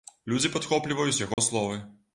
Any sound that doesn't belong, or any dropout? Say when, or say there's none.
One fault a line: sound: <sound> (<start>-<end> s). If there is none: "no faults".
sound: dropout (1.3-1.4 s)